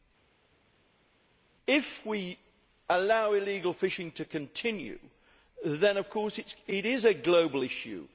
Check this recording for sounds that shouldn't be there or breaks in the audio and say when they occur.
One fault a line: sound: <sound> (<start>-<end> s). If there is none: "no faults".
no faults